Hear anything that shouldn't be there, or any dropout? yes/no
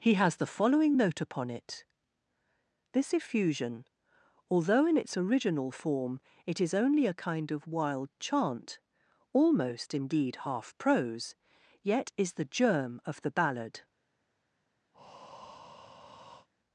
yes